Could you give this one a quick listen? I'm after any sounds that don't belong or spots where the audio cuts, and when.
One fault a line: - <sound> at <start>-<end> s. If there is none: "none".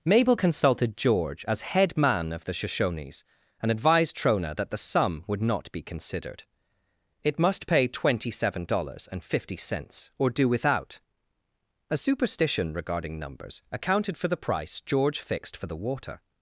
none